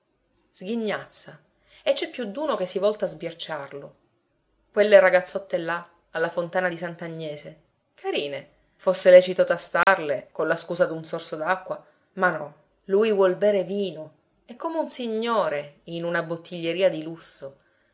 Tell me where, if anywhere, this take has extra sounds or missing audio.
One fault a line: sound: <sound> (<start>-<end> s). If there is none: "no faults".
sound: dropout (9.8-9.9 s)